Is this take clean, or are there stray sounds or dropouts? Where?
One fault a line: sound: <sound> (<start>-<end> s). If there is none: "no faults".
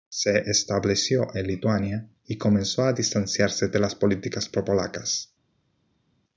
no faults